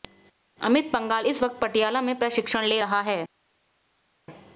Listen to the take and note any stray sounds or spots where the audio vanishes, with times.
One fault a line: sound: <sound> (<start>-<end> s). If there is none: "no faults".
no faults